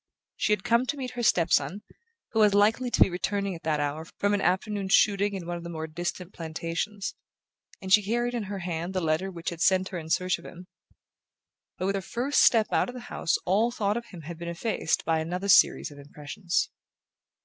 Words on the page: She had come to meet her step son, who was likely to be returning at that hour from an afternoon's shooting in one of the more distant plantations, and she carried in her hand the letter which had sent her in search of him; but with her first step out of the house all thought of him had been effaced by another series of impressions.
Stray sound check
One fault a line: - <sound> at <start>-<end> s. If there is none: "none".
none